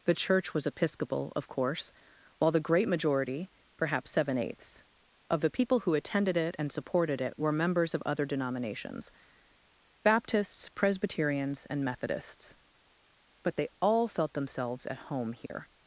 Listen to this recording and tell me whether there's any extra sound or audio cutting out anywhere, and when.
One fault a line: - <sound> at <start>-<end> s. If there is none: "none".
- dropout at 15.5-15.5 s